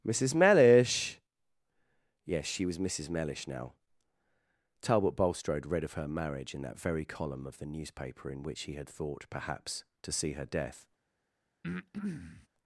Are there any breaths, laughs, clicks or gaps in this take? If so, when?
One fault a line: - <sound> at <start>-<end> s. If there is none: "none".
- breath at 11.6-12.5 s